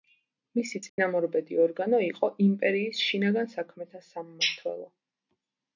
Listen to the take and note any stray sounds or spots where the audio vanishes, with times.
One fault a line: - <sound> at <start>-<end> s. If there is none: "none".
- dropout at 0.9-1.0 s